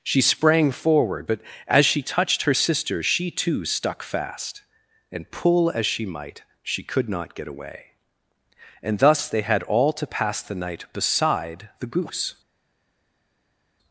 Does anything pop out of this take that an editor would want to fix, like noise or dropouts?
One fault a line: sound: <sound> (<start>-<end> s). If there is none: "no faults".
no faults